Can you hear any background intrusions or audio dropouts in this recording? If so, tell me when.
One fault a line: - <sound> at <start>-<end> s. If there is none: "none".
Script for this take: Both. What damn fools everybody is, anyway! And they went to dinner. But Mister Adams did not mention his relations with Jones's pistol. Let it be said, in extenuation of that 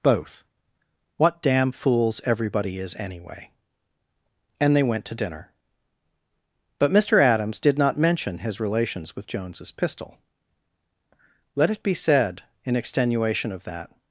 none